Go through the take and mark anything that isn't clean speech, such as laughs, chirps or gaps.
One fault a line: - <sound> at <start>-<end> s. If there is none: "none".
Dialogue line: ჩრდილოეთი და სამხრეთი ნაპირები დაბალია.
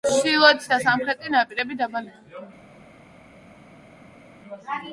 none